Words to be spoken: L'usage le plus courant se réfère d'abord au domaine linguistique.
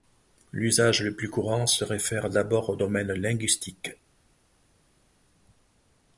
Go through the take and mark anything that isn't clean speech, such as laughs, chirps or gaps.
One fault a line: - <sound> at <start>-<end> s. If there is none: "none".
none